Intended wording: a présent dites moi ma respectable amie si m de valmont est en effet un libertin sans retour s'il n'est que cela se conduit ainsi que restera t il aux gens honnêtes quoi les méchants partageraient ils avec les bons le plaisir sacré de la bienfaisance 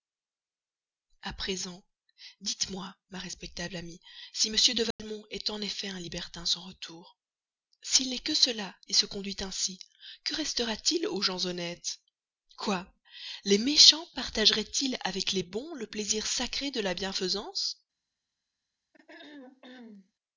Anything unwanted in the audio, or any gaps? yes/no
yes